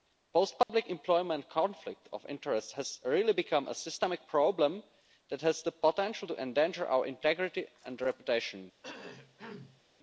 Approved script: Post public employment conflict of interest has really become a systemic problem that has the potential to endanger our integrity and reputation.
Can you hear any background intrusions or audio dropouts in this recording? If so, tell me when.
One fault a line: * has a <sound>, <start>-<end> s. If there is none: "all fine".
* has a dropout, 0.6-0.7 s
* has a cough, 8.8-9.8 s